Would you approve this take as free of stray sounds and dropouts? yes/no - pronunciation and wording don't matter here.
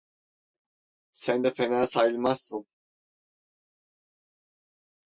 yes